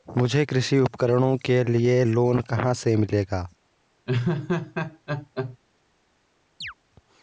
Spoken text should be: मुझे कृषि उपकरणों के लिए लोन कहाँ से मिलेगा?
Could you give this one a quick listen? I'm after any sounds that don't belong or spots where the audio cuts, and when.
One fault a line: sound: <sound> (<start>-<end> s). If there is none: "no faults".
sound: laugh (4.1-5.6 s)
sound: chirp (6.6-6.7 s)